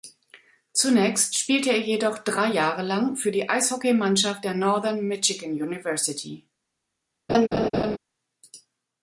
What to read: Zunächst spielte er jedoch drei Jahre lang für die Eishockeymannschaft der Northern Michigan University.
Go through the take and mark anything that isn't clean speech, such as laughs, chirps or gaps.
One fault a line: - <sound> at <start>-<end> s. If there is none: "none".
- laugh at 7.3-8.0 s